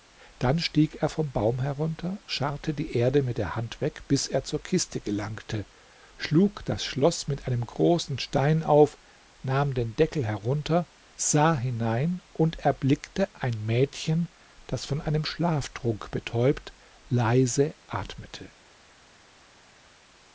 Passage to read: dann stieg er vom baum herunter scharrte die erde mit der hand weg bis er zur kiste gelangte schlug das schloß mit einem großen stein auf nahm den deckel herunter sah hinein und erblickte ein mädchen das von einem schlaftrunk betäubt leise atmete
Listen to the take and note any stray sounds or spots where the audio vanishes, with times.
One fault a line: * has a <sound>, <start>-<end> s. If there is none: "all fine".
all fine